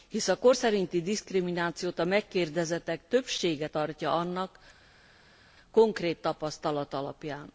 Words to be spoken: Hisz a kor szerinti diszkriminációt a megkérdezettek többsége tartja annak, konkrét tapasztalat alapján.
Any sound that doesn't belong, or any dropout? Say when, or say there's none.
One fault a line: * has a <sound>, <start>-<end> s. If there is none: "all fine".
all fine